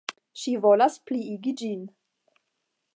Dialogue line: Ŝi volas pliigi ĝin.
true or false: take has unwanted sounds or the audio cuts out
false